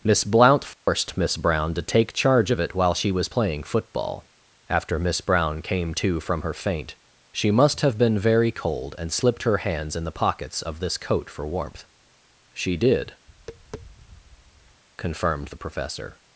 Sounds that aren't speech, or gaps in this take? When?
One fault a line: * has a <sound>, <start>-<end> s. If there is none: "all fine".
* has a dropout, 0.7-0.9 s
* has a tap, 13.3-14.8 s